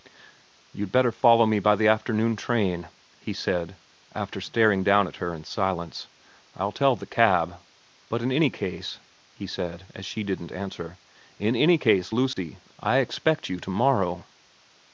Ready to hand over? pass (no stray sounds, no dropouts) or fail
fail